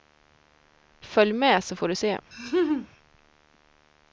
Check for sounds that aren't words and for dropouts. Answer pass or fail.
fail